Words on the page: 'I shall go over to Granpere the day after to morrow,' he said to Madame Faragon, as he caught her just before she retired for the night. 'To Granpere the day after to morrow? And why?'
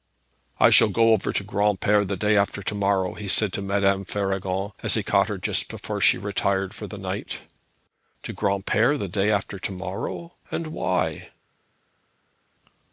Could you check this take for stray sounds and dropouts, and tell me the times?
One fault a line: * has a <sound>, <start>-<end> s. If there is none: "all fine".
all fine